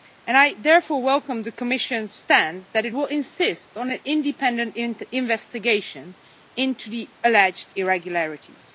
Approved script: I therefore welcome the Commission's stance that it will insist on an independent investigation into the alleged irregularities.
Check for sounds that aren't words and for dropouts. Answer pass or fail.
pass